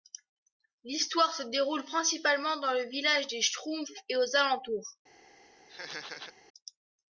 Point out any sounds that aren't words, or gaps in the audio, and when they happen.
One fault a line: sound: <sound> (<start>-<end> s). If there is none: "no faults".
sound: laugh (5.7-6.3 s)